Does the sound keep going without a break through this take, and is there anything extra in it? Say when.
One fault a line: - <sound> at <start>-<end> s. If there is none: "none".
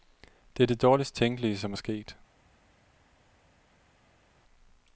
none